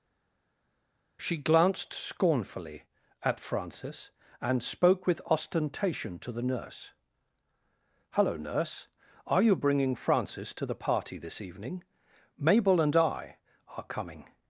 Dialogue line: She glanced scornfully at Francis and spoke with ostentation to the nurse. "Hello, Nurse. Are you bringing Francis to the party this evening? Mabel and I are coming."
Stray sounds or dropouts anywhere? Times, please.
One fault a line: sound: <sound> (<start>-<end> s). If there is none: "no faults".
no faults